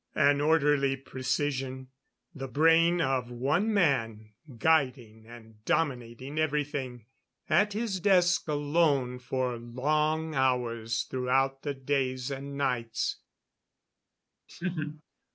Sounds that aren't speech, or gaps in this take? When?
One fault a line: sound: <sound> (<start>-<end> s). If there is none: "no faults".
sound: laugh (14.5-15.0 s)